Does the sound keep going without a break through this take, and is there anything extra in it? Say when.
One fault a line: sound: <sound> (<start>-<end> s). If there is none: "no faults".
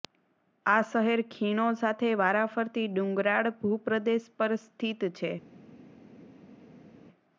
no faults